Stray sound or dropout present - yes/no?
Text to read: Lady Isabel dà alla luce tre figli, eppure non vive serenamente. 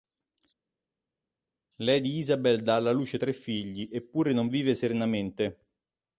no